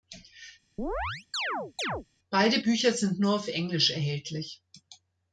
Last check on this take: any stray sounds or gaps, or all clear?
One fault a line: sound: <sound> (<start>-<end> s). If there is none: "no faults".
sound: chirp (0.8-2.1 s)